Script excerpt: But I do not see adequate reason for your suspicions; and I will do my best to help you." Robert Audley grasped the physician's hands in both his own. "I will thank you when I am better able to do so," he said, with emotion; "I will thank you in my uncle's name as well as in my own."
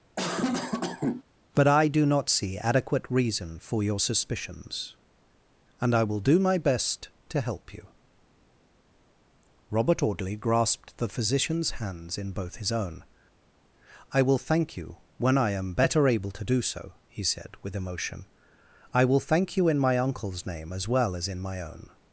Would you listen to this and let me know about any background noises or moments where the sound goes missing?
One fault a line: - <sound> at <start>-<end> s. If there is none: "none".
- cough at 0.2-1.2 s